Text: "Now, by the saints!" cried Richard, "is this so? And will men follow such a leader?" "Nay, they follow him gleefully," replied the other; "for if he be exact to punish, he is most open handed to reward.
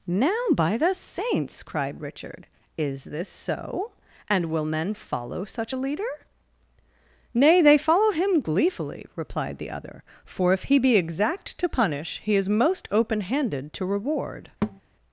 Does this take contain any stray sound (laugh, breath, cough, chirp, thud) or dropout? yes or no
yes